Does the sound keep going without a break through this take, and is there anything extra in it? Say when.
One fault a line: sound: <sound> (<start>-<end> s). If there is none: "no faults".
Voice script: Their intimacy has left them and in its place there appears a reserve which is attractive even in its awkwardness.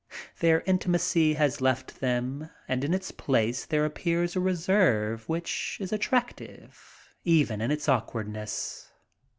no faults